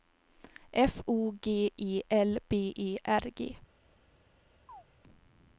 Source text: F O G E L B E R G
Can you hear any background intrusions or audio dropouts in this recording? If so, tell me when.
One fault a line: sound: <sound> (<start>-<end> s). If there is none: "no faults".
sound: chirp (4.7-4.8 s)